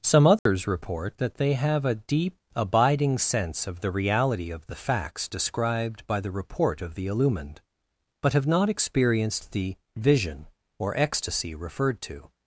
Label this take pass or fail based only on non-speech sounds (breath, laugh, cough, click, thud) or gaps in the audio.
fail